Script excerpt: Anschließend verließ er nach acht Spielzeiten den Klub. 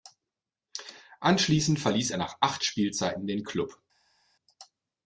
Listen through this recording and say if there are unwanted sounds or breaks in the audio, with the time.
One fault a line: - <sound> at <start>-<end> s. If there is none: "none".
none